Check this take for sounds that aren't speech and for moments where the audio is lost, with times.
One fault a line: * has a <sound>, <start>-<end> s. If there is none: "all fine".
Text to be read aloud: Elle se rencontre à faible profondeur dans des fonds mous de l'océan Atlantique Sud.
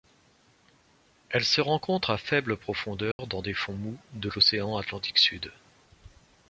* has a dropout, 3.1-3.2 s